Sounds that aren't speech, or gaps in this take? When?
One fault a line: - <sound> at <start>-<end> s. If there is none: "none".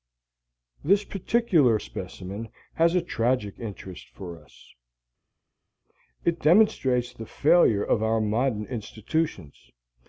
none